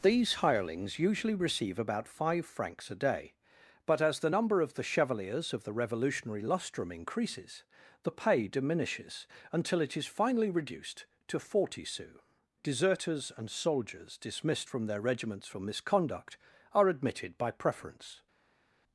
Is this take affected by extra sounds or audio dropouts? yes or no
no